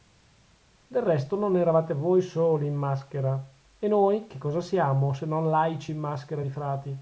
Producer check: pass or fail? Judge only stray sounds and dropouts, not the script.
pass